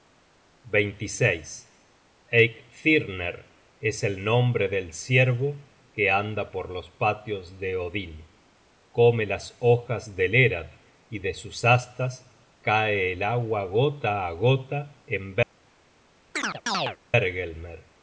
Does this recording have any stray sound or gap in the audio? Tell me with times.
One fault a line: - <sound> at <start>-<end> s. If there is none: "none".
- chirp at 16.3-17.0 s